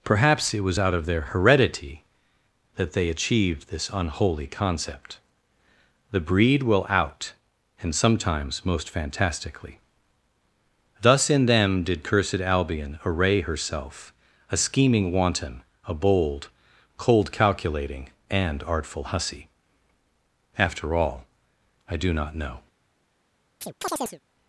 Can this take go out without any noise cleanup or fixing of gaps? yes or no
no